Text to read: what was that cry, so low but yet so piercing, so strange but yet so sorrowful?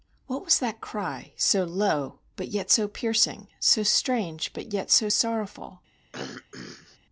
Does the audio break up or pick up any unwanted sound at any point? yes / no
yes